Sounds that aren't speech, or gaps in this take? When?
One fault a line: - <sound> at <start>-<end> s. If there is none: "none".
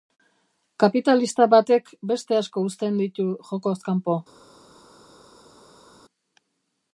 none